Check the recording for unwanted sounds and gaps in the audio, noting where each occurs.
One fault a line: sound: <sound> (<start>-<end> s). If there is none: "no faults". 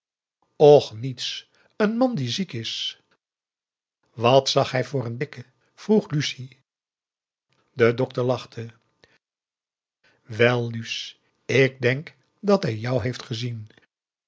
no faults